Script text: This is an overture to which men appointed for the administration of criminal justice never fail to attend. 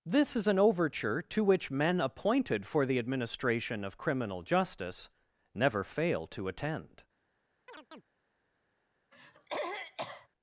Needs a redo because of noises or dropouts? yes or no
yes